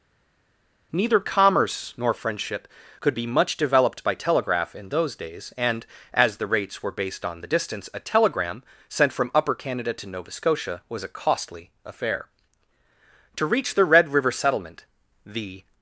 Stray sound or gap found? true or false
false